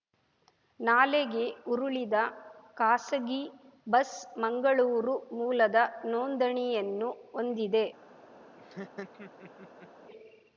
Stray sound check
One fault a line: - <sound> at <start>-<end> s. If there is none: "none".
- laugh at 8.6-9.9 s